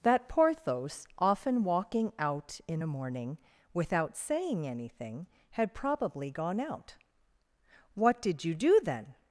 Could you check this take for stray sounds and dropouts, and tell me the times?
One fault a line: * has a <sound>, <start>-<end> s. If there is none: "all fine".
all fine